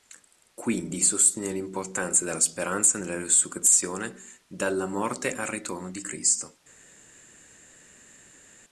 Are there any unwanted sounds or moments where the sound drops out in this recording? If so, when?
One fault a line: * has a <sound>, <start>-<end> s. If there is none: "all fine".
all fine